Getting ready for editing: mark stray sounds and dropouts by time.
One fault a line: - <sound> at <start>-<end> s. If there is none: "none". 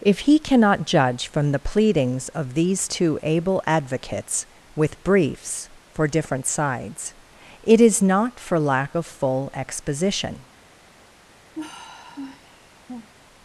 - sigh at 11.5-13.1 s